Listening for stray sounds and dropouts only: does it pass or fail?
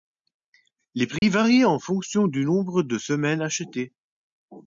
fail